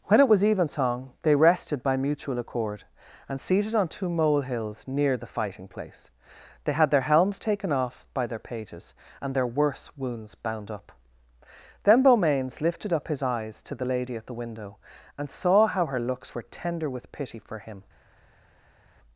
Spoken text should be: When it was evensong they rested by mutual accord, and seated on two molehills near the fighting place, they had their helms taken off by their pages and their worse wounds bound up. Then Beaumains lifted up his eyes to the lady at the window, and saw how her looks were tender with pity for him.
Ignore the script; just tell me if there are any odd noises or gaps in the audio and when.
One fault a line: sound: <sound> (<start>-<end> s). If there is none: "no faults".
no faults